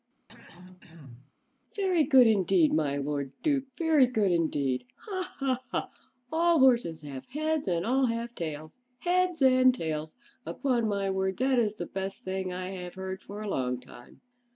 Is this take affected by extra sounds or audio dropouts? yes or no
yes